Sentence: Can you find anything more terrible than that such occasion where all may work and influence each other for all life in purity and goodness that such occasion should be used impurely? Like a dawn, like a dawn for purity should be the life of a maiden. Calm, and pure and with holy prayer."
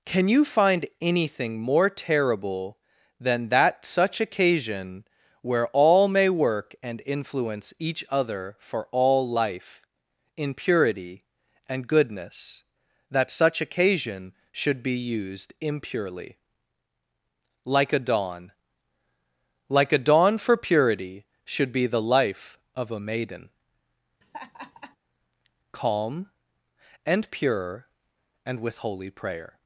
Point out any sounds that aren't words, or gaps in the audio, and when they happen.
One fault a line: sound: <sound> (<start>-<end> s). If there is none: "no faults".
sound: laugh (24.2-25.0 s)